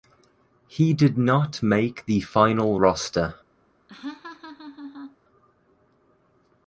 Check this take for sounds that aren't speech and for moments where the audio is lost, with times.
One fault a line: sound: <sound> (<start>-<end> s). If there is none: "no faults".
sound: laugh (3.9-5.2 s)